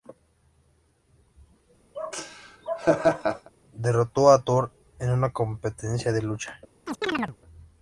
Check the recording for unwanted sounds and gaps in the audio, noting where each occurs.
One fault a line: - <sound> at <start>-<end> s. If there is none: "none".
- laugh at 1.9-3.5 s
- chirp at 6.9-7.4 s